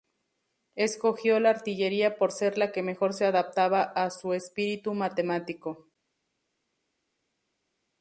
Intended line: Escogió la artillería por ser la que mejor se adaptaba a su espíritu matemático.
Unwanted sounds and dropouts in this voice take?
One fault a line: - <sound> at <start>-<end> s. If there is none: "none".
none